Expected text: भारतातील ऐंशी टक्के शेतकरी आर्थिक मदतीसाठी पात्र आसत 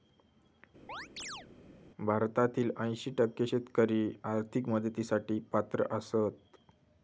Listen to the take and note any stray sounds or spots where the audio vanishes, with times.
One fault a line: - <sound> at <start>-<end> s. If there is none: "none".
- chirp at 0.9-1.5 s